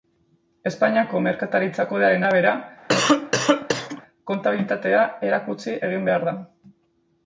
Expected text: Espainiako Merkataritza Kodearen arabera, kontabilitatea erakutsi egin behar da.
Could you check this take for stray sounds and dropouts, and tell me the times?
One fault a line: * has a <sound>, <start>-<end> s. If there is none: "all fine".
* has a cough, 2.9-4.0 s